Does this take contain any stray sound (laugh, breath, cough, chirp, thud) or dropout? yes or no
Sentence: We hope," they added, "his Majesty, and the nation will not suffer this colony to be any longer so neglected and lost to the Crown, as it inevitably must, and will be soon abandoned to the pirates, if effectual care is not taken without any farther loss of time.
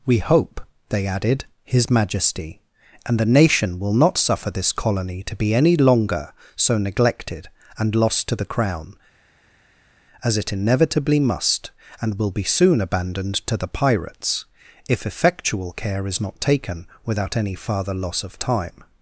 no